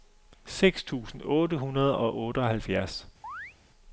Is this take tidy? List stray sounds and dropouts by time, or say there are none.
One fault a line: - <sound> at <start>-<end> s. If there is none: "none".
- chirp at 3.2-3.6 s